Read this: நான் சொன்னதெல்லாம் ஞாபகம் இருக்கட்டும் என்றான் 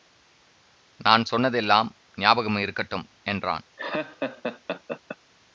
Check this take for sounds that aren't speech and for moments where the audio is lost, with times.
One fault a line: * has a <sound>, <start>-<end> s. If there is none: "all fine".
* has a laugh, 3.8-5.2 s